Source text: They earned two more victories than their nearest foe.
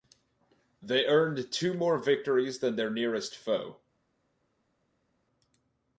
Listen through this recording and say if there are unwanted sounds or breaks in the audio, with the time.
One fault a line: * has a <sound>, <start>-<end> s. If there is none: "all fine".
all fine